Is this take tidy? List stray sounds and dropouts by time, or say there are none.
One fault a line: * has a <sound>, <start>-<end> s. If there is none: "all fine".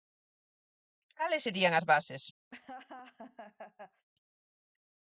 * has a laugh, 2.5-4.1 s